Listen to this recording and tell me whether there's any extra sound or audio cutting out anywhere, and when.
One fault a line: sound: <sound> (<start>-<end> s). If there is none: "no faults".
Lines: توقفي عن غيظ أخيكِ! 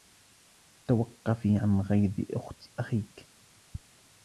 no faults